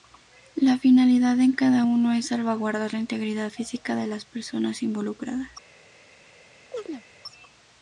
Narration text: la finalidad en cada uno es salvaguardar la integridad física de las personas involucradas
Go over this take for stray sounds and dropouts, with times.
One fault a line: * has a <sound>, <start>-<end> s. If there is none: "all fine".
* has a chirp, 6.7-7.0 s